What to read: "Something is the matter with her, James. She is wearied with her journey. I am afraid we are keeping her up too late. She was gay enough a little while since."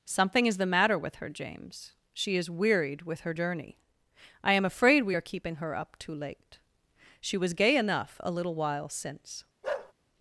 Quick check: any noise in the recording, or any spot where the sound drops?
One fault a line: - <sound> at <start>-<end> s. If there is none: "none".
- bark at 9.6-9.9 s